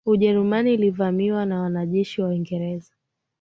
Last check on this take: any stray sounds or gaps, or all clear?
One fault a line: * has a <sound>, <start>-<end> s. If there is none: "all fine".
all fine